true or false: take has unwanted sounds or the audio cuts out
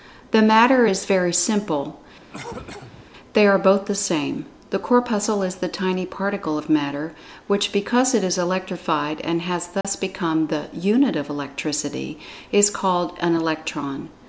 true